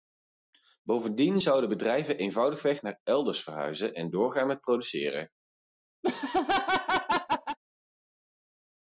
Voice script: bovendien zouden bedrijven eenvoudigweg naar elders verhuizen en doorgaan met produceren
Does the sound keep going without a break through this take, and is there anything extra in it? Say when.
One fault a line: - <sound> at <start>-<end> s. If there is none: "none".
- laugh at 6.0-7.6 s